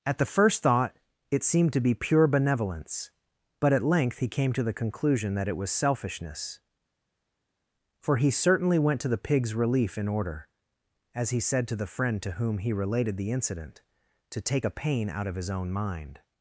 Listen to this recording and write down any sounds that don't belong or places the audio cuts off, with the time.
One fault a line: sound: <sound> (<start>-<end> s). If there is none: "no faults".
no faults